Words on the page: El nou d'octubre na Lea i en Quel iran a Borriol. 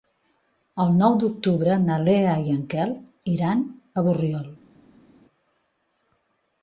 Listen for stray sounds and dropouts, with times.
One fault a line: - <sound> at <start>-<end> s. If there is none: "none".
none